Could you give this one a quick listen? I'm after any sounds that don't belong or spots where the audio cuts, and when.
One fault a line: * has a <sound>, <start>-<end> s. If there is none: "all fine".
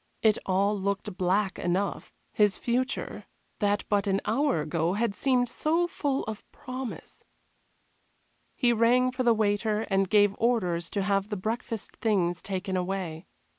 all fine